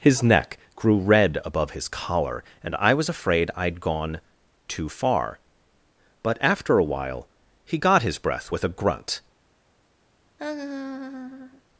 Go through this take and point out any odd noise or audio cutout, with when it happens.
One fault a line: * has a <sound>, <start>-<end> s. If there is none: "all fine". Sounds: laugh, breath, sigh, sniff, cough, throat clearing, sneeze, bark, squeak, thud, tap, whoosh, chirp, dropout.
* has a laugh, 10.4-11.6 s